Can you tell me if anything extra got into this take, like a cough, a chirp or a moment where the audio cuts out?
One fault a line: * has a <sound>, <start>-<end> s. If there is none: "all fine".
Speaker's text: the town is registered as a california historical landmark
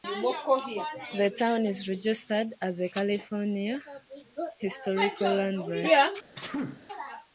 * has a sneeze, 6.3-6.9 s